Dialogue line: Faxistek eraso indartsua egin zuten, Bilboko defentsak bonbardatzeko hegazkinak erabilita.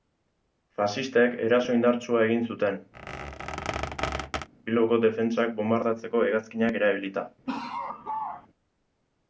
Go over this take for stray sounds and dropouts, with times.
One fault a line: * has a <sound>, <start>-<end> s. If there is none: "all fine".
* has a squeak, 2.9-4.5 s
* has a laugh, 7.5-8.5 s